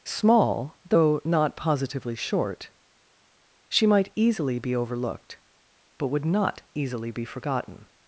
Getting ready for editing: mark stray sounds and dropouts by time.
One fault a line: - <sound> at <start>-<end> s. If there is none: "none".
none